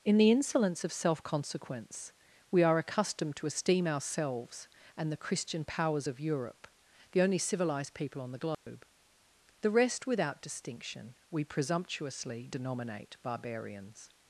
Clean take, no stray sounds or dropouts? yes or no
no